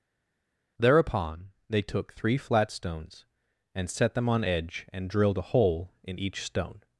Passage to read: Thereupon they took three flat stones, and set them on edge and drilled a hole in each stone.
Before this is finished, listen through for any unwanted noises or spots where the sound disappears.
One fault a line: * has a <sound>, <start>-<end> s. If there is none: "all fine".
all fine